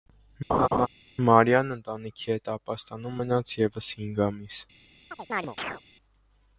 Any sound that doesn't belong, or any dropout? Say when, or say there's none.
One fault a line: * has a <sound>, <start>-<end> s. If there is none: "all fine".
* has a laugh, 0.5-0.9 s
* has a chirp, 5.1-5.8 s